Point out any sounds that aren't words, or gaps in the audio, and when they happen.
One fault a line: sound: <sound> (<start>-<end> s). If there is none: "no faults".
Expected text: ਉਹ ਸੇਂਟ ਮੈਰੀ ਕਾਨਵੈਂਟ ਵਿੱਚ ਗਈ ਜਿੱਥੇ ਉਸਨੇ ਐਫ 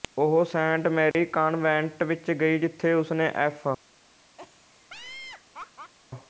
sound: dropout (1.1-1.1 s)
sound: laugh (4.4-5.9 s)